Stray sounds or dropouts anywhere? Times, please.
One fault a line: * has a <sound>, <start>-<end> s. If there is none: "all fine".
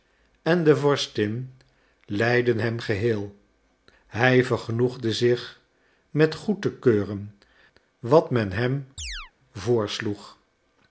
* has a chirp, 9.0-9.3 s